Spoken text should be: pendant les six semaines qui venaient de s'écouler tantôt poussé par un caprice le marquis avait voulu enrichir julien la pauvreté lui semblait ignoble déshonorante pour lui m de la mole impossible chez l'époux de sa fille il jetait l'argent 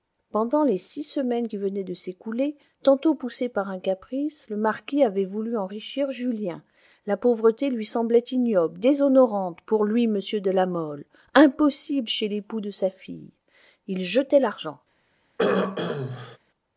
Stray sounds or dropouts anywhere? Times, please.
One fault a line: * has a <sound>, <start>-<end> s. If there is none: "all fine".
* has a throat clearing, 15.4-16.4 s